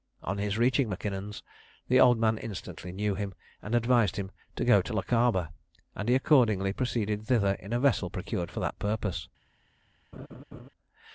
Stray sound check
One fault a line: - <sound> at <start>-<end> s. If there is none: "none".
- laugh at 10.1-10.7 s